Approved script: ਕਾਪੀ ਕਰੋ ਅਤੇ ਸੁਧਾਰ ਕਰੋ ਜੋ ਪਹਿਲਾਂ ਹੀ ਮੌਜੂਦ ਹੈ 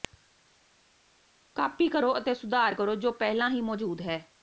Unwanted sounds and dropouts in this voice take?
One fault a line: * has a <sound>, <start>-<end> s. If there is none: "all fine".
all fine